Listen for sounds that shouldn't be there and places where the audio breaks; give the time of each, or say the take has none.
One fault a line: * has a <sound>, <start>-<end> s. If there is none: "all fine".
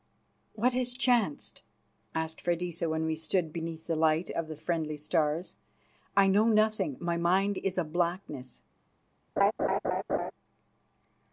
* has a laugh, 9.4-10.3 s